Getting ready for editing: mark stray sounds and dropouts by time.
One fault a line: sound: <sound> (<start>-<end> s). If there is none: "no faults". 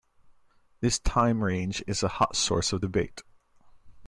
no faults